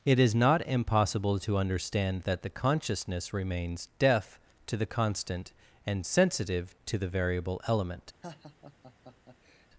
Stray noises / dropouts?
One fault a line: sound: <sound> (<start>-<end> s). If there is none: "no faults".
sound: laugh (8.2-9.7 s)